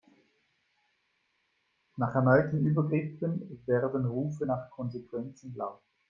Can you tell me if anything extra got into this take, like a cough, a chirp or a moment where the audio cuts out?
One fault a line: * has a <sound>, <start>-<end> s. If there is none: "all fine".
all fine